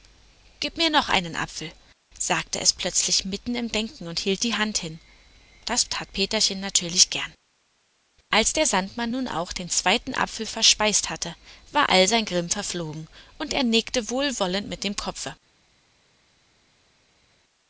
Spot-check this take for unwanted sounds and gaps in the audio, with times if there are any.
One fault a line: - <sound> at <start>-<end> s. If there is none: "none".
none